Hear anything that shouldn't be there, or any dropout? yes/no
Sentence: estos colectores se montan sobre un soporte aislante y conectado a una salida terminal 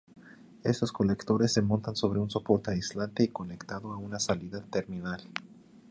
no